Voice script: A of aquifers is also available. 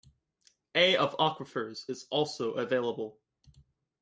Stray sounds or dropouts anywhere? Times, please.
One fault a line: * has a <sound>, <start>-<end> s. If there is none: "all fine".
all fine